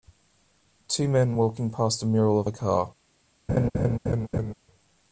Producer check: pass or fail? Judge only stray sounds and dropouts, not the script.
fail